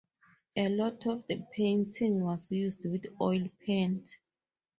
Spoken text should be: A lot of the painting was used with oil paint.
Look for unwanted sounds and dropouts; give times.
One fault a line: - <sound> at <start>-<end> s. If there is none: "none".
none